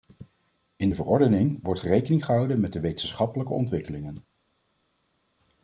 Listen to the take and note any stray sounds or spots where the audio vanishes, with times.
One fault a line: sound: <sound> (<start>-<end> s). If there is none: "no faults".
no faults